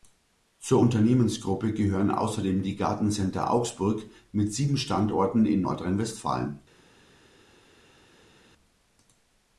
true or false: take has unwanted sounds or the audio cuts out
false